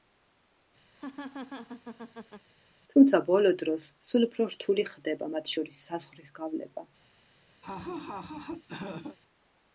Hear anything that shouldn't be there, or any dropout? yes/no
yes